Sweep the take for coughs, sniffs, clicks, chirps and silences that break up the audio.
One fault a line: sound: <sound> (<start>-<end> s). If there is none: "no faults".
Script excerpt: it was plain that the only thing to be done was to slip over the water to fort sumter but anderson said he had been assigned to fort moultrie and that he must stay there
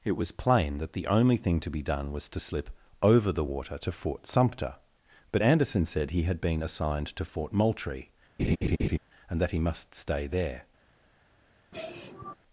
sound: laugh (8.4-9.0 s)
sound: sniff (11.7-12.4 s)